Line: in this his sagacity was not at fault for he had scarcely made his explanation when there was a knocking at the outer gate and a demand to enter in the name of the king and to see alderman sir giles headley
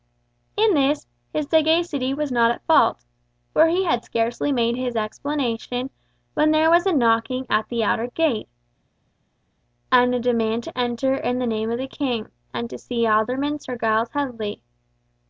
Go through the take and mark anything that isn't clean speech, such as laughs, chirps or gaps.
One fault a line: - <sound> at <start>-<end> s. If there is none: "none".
none